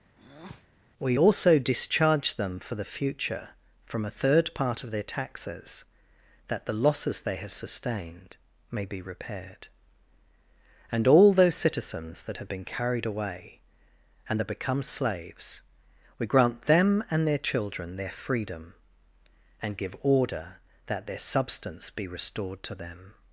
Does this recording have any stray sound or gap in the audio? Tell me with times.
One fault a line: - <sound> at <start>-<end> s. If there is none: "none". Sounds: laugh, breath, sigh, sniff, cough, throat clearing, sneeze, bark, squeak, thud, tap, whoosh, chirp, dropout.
- breath at 0.2-0.7 s